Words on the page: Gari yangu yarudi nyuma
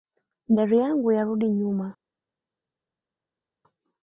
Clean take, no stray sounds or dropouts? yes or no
yes